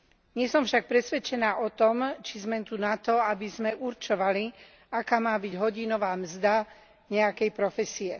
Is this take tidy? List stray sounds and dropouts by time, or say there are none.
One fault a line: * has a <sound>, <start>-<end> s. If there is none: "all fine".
all fine